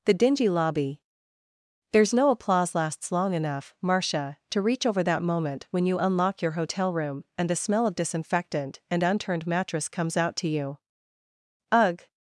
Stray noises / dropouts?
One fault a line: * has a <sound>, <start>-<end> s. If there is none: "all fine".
all fine